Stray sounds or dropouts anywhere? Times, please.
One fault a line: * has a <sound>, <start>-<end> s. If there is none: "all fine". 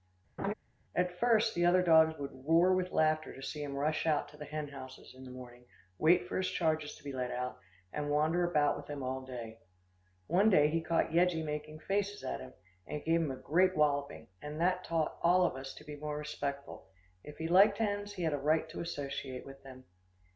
* has a laugh, 0.4-0.5 s